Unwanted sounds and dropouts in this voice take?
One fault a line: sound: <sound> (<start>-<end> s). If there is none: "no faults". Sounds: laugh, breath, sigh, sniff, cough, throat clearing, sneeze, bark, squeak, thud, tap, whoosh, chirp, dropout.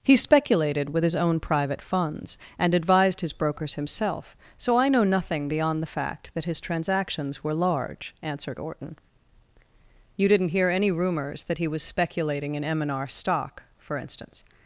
no faults